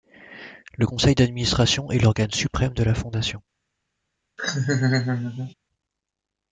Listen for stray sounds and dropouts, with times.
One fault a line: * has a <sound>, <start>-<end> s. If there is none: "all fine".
* has a laugh, 4.4-5.5 s